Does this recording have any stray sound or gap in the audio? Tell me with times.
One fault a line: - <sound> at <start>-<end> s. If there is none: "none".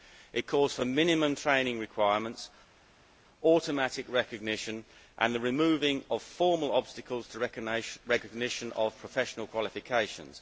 none